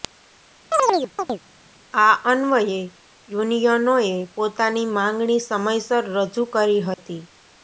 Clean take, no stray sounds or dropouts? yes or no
no